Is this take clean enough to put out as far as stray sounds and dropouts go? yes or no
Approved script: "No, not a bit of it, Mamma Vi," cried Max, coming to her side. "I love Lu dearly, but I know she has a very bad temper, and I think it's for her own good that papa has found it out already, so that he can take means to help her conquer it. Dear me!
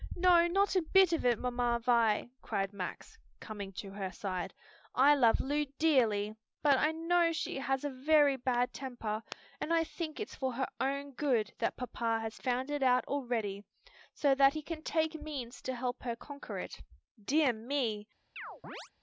no